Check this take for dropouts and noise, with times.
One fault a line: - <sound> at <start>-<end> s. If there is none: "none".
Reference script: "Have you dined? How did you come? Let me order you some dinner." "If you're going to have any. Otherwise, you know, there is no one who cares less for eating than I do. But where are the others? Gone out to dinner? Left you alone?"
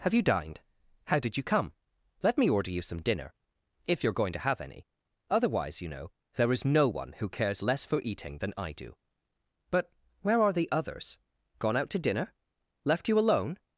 none